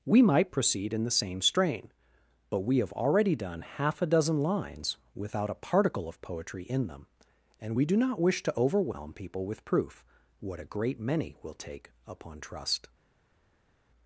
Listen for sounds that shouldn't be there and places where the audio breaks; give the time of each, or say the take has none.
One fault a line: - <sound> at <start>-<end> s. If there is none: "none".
none